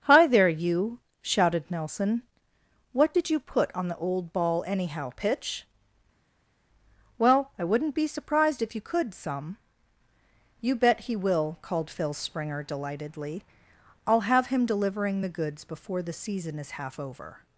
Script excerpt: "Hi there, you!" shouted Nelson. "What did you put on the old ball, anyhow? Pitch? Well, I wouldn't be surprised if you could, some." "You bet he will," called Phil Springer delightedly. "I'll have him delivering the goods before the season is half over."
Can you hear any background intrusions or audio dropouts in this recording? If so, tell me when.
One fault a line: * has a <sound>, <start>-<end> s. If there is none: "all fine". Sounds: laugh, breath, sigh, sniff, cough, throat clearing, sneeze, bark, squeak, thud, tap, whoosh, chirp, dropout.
all fine